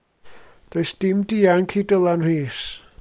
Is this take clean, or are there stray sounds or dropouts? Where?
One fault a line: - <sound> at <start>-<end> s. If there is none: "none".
none